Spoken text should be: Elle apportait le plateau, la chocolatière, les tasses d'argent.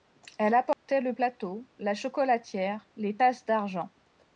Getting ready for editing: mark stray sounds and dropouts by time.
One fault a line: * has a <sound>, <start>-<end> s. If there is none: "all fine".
* has a dropout, 0.7-0.9 s